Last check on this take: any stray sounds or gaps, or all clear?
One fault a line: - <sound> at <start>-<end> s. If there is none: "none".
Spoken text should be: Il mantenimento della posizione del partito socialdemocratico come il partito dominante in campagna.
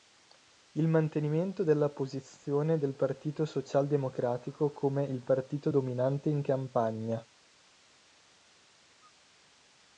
none